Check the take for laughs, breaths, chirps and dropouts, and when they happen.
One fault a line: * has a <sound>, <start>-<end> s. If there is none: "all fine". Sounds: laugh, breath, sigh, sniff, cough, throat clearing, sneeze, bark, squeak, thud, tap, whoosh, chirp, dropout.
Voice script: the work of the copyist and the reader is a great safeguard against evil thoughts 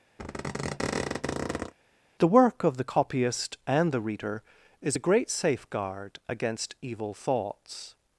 * has a squeak, 0.2-1.7 s